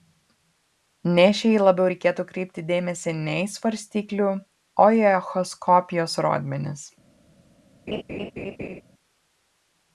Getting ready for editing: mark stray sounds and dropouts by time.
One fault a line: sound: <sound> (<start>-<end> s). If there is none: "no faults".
sound: laugh (7.9-8.8 s)